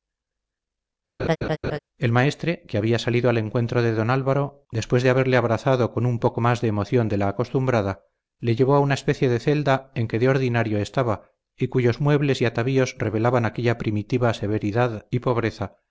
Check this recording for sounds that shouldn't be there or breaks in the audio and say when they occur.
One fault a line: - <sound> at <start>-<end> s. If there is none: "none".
- laugh at 1.2-1.8 s